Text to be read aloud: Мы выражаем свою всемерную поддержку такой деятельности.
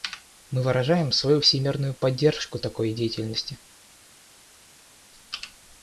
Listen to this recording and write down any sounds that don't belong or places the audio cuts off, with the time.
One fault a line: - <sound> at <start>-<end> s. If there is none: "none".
none